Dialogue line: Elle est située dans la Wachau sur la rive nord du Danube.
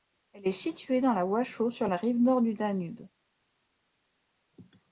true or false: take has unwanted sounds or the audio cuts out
false